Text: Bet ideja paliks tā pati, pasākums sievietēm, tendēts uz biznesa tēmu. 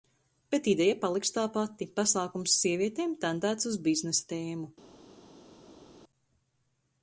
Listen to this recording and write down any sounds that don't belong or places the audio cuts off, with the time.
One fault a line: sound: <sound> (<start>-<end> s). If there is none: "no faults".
no faults